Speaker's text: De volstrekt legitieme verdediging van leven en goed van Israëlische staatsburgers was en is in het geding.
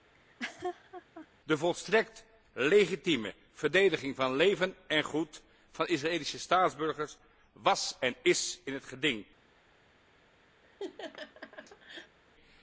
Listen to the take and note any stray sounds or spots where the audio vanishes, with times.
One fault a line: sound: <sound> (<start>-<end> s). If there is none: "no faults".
sound: laugh (0.1-1.3 s)
sound: laugh (10.6-12.2 s)